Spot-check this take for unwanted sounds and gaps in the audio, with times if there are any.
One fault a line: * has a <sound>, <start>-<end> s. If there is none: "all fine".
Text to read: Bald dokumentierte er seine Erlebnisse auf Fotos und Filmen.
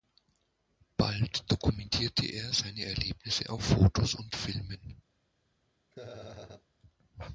* has a laugh, 5.9-6.7 s